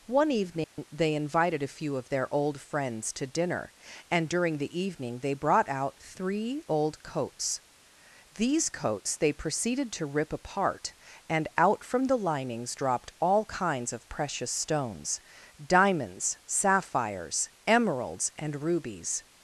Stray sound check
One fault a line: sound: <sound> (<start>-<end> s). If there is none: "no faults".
sound: dropout (0.6-0.8 s)